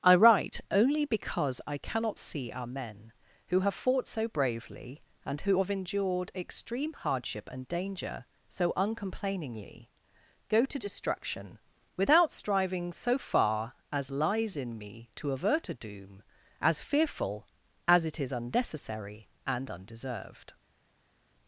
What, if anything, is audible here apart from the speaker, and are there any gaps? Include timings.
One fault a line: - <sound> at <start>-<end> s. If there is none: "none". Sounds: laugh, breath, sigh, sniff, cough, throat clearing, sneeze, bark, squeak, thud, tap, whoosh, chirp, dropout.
none